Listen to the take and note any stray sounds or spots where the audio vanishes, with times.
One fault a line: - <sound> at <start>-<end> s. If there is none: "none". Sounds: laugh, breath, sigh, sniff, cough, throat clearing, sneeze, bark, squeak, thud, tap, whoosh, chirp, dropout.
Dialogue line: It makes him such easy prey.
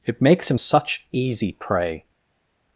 none